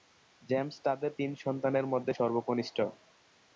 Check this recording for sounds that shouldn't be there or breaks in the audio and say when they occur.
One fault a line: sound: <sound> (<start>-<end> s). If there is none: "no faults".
no faults